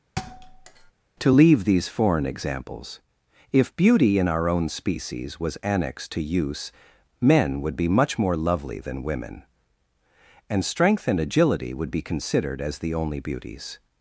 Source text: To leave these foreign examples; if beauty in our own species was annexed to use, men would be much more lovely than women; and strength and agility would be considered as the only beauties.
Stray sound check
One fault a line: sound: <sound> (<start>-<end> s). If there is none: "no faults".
sound: thud (0.2-0.9 s)